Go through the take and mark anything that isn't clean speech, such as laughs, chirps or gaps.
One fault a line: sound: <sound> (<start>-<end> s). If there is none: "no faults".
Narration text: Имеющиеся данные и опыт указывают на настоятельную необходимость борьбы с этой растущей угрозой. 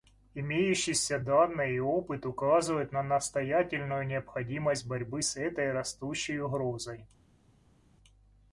no faults